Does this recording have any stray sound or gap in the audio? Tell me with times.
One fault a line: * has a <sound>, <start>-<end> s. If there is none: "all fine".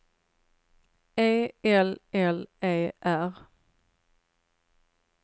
all fine